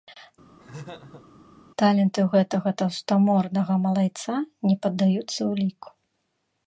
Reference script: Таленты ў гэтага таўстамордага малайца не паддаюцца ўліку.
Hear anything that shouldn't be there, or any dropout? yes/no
yes